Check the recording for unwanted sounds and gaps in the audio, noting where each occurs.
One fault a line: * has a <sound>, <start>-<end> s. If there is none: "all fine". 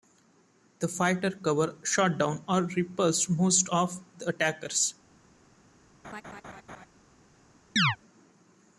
* has a laugh, 6.0-6.9 s
* has a chirp, 7.8-8.0 s